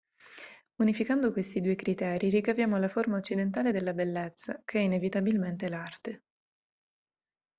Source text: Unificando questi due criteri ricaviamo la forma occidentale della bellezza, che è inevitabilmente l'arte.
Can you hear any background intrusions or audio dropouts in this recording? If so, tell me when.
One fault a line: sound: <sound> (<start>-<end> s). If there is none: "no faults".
no faults